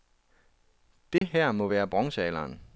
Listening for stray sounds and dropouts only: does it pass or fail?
fail